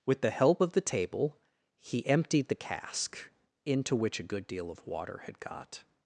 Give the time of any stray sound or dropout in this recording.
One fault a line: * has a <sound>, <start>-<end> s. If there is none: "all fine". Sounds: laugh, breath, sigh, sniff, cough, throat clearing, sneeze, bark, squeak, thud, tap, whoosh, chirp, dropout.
all fine